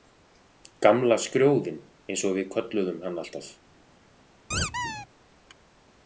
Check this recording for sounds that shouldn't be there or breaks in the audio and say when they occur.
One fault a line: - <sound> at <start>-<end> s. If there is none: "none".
- squeak at 4.5-5.1 s